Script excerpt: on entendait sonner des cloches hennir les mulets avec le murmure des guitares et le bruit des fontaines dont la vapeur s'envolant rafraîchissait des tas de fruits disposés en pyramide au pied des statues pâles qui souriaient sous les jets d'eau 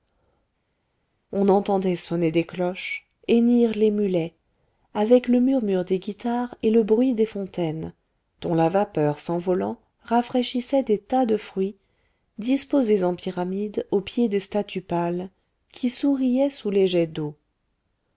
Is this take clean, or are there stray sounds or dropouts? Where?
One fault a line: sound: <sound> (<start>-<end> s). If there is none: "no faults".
no faults